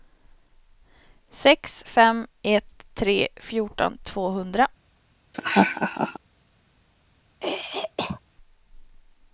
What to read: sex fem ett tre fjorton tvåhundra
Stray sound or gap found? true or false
true